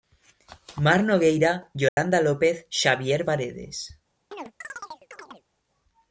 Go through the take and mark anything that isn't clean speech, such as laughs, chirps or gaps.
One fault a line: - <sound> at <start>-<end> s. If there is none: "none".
- dropout at 1.9-2.0 s
- chirp at 4.3-5.4 s